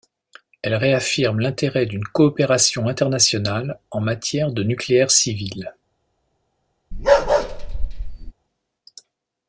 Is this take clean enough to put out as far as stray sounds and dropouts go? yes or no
no